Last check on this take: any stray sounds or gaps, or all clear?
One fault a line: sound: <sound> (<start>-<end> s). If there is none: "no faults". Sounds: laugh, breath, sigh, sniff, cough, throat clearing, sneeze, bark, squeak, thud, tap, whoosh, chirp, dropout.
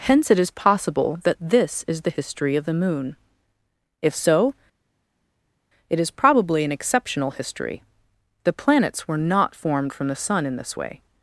no faults